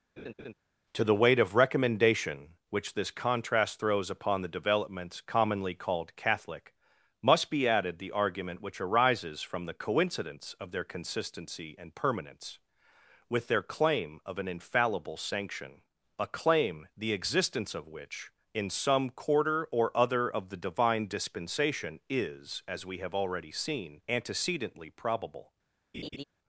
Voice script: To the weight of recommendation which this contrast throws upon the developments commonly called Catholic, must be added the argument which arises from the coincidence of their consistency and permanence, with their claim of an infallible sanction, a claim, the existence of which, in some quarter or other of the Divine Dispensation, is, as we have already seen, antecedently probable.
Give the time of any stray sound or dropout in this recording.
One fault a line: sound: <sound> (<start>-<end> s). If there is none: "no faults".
sound: laugh (0.2-0.5 s)
sound: laugh (25.9-26.2 s)